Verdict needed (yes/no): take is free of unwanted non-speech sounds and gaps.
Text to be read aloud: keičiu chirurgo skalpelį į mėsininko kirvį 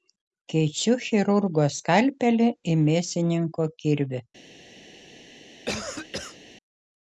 no